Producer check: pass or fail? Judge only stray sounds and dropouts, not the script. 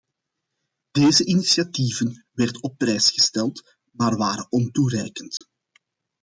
fail